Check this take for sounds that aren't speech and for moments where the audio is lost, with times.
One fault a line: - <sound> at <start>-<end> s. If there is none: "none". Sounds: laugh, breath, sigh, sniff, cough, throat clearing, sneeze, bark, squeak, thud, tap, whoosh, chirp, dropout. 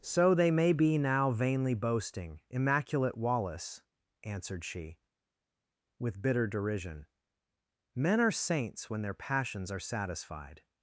none